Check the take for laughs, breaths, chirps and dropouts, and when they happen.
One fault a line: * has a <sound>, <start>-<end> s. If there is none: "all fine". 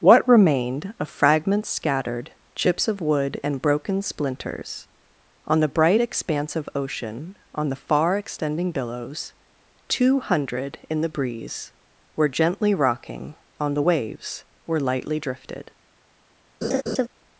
* has a laugh, 16.6-17.1 s